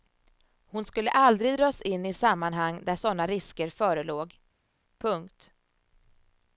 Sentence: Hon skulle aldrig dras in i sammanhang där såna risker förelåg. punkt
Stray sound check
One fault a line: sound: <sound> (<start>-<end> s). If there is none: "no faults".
no faults